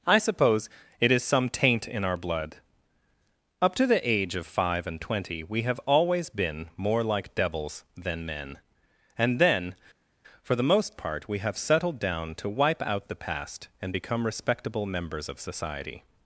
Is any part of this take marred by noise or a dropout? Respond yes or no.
no